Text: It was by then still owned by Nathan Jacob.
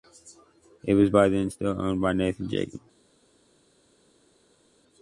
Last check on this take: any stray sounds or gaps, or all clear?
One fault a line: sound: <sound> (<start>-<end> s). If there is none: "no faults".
no faults